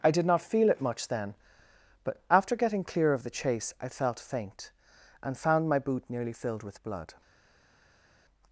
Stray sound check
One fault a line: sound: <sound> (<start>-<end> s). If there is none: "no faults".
no faults